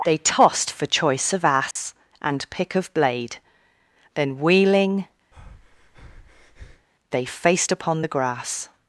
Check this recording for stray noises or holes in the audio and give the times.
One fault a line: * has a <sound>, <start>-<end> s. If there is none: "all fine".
* has a dropout, 1.7-1.8 s
* has a breath, 5.3-6.9 s